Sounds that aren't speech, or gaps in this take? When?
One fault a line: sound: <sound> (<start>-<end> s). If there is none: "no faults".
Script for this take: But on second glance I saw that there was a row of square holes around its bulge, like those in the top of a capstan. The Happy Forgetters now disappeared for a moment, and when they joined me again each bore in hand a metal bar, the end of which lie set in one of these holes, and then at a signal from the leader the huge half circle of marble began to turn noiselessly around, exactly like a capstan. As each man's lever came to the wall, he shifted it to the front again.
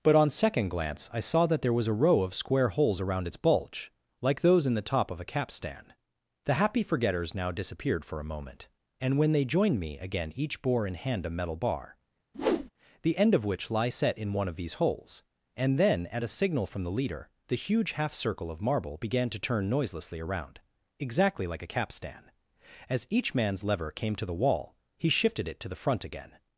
sound: whoosh (12.3-12.7 s)